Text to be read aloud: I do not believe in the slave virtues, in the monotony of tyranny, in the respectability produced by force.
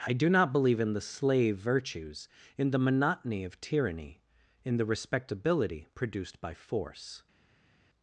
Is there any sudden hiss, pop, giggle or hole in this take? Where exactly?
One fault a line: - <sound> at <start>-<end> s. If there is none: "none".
none